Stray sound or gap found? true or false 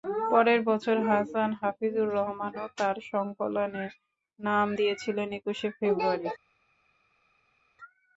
false